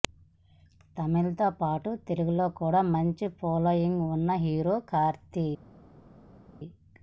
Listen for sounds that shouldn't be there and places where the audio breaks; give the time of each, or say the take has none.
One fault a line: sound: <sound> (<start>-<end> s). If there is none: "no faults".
no faults